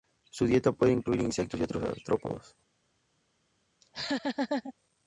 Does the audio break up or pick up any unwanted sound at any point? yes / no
yes